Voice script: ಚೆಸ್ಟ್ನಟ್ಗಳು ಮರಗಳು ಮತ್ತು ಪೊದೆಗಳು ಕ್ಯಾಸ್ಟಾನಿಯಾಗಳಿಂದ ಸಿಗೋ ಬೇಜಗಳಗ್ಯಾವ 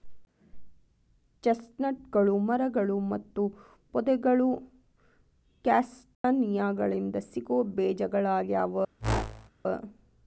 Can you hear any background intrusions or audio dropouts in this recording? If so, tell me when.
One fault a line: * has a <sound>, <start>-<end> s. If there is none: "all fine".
* has a dropout, 6.1-6.2 s
* has a whoosh, 9.0-9.5 s